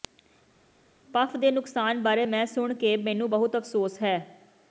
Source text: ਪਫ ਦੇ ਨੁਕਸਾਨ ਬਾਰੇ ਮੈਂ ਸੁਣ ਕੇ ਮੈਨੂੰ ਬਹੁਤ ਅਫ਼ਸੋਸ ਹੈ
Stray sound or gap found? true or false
false